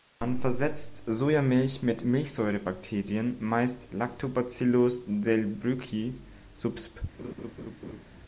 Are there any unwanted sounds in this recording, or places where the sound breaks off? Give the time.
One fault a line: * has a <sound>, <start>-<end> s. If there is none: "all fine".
* has a laugh, 7.2-8.0 s